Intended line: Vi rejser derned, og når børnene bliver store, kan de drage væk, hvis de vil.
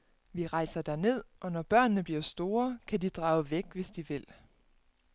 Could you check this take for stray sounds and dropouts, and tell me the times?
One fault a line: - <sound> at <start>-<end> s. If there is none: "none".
none